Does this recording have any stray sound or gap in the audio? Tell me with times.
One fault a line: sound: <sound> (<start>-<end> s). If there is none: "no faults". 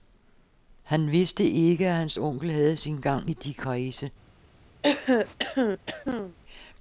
sound: throat clearing (4.8-6.4 s)